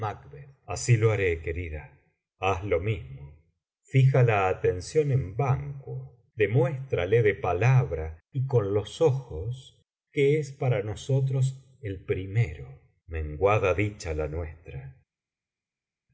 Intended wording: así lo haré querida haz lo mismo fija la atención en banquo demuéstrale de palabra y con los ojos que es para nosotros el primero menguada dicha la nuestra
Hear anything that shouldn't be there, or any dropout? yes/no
no